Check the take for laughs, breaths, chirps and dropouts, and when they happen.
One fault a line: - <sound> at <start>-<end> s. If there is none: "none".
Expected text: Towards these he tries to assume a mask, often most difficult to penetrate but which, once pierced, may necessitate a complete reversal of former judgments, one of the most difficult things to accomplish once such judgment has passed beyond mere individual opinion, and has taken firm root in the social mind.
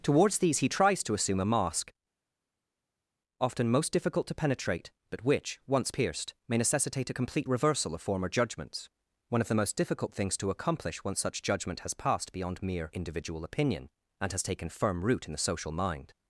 none